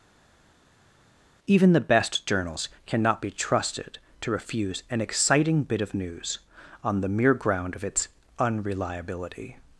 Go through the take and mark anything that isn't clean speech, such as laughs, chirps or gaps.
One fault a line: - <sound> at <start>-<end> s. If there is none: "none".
none